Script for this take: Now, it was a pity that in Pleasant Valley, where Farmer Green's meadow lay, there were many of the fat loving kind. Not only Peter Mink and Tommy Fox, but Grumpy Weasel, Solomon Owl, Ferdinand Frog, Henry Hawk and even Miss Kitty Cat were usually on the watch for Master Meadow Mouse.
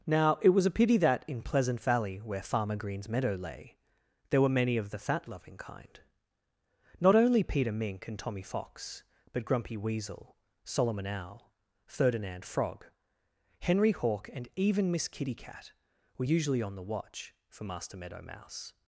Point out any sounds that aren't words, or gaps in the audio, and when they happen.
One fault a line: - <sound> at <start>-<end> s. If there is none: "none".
none